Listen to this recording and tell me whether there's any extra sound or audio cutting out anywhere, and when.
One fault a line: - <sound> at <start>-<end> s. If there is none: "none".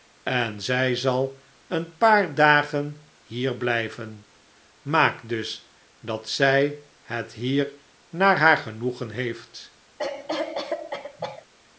- cough at 10.0-11.5 s